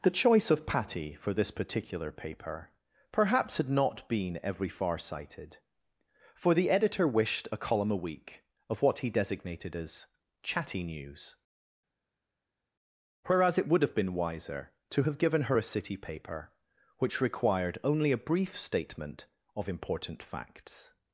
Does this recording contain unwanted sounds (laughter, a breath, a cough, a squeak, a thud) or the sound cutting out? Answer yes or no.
no